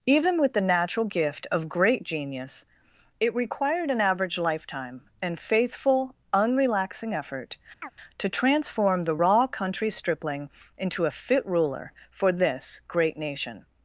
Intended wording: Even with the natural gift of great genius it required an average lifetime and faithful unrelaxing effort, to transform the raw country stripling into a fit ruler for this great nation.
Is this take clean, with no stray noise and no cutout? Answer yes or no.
no